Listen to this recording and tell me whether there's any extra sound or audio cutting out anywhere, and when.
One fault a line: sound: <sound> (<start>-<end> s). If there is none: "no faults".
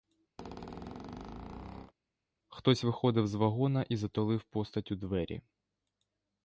sound: squeak (0.4-1.9 s)